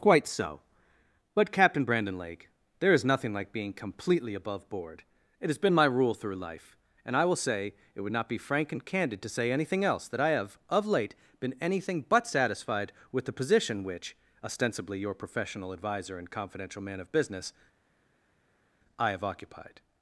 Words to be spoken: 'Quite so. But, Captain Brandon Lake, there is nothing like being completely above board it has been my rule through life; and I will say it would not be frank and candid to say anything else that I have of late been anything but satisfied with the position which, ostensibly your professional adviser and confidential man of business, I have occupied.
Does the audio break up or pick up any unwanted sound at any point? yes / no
no